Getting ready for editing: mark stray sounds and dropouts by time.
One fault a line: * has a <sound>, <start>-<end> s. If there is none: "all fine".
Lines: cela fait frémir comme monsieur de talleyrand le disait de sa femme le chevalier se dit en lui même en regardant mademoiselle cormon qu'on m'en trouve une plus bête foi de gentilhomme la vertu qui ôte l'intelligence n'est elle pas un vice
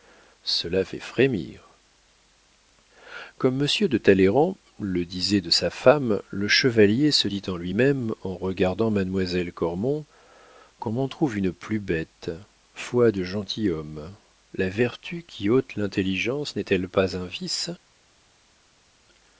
all fine